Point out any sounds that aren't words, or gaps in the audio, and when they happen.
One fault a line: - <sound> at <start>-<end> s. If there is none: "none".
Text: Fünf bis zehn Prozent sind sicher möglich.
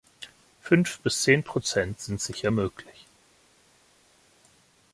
none